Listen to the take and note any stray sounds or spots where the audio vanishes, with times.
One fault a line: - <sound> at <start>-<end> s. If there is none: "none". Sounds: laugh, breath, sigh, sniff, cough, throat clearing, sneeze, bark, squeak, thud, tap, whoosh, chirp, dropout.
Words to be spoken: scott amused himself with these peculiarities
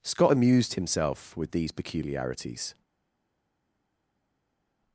none